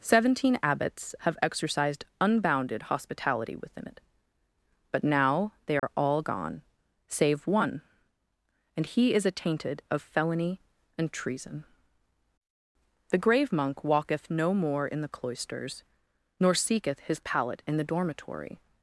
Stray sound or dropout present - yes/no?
yes